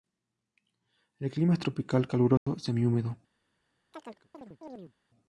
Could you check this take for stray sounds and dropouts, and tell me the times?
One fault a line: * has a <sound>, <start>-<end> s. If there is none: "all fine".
* has a dropout, 2.4-2.5 s
* has a chirp, 3.9-4.9 s